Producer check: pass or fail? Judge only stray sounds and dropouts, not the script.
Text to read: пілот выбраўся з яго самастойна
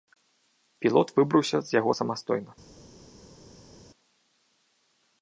pass